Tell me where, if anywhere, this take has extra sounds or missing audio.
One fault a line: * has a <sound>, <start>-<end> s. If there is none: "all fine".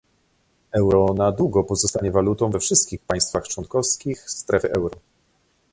all fine